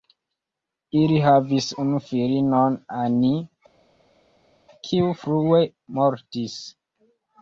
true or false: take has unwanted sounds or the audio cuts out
false